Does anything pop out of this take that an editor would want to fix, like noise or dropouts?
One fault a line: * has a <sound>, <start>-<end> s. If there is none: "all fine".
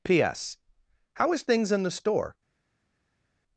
all fine